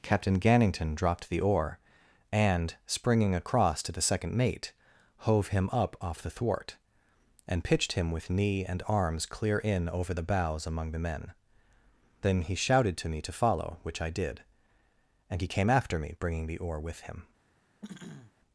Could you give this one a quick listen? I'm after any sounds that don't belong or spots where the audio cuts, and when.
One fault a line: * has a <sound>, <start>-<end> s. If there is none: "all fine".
* has a throat clearing, 17.8-18.3 s